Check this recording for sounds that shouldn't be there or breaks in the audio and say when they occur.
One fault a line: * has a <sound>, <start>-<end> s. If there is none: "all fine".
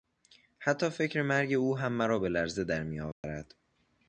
* has a dropout, 3.1-3.2 s